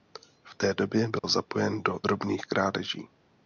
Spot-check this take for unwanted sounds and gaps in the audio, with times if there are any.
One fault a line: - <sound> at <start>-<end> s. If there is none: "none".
- dropout at 1.2-1.2 s